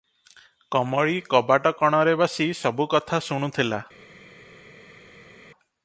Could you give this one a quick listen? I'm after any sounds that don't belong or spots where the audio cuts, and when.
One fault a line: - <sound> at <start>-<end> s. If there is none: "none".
none